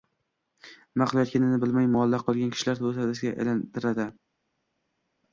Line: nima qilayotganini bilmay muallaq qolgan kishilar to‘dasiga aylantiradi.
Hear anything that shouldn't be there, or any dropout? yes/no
no